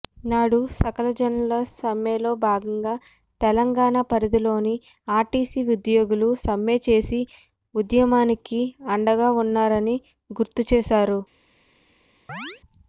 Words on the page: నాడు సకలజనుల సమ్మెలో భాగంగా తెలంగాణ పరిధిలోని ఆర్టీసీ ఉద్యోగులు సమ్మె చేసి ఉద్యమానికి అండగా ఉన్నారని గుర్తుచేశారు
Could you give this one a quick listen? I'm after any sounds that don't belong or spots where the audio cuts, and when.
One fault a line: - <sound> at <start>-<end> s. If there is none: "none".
- chirp at 12.3-12.6 s